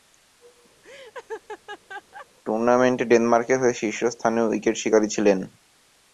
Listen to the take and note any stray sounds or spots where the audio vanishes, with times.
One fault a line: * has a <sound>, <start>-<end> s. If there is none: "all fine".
* has a laugh, 0.8-2.3 s